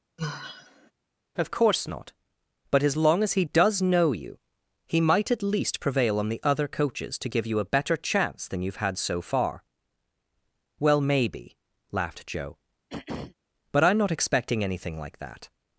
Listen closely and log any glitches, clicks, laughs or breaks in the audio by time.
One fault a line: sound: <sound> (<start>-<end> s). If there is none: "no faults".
sound: sigh (0.2-0.9 s)
sound: throat clearing (12.9-13.4 s)